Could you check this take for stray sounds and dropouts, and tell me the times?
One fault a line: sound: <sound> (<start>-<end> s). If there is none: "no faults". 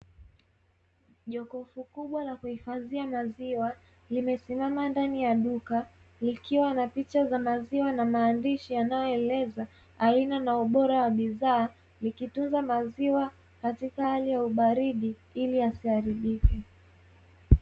no faults